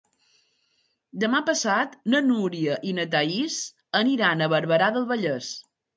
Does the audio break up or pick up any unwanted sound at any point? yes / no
no